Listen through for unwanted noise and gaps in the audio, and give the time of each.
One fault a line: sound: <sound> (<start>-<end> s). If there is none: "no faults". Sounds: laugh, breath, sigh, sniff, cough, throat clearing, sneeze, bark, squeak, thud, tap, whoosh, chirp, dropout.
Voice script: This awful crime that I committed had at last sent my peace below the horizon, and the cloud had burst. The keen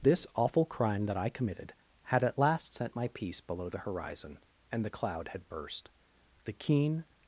no faults